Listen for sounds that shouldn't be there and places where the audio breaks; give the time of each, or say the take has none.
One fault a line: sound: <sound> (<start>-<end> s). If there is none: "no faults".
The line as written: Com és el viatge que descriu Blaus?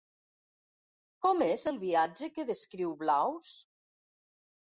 no faults